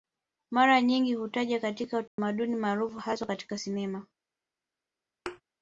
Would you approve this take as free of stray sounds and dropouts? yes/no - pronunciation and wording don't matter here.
no